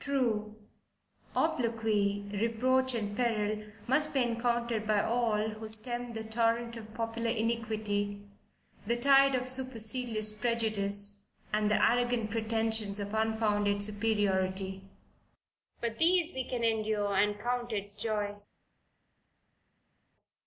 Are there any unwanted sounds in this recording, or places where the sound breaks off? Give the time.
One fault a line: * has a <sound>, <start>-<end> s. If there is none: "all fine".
all fine